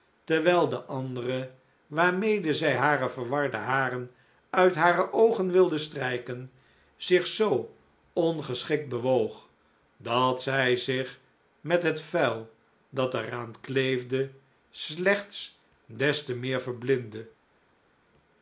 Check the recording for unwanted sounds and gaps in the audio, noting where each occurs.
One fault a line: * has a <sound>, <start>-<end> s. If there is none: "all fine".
all fine